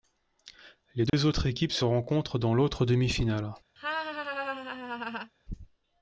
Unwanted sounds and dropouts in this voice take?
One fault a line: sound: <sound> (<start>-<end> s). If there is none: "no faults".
sound: dropout (1.1-1.1 s)
sound: laugh (3.8-5.3 s)